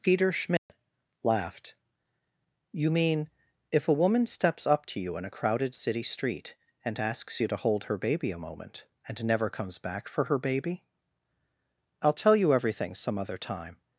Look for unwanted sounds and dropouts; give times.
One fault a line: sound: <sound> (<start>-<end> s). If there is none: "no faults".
sound: dropout (0.6-0.7 s)